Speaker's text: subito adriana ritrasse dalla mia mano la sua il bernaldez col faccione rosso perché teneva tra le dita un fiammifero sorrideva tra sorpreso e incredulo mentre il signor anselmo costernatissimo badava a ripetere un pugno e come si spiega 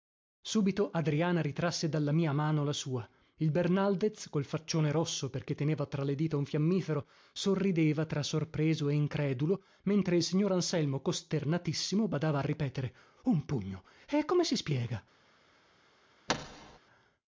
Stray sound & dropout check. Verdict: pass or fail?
fail